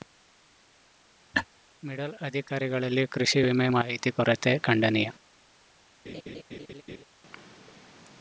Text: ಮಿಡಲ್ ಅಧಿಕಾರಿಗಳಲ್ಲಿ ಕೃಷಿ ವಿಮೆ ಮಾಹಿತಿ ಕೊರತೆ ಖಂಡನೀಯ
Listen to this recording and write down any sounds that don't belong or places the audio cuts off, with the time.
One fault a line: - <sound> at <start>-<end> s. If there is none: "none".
- laugh at 1.3-1.5 s
- laugh at 6.1-7.0 s